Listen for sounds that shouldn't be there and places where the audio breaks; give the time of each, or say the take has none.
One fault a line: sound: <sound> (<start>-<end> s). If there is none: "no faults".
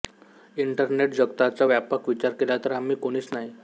no faults